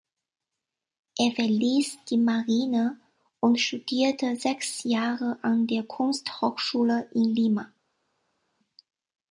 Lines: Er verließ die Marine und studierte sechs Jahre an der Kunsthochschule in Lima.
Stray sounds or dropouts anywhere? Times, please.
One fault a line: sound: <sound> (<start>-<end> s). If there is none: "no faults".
no faults